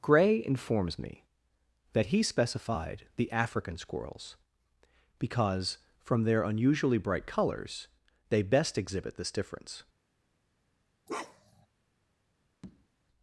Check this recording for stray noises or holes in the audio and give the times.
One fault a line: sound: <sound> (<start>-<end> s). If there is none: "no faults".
sound: bark (11.1-11.7 s)
sound: tap (12.6-12.9 s)